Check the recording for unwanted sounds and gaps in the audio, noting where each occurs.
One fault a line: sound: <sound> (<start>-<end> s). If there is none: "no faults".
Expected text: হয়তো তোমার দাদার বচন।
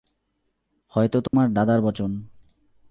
sound: dropout (1.3-1.3 s)